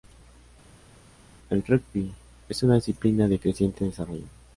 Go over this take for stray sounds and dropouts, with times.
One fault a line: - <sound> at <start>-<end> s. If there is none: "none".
none